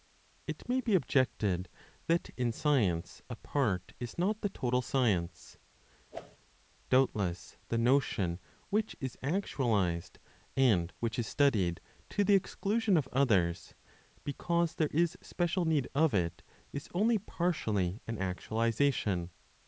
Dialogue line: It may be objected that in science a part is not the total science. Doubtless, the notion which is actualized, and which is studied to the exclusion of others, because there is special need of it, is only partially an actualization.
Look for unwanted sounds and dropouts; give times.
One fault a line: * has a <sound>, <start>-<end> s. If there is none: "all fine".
* has a whoosh, 6.1-6.4 s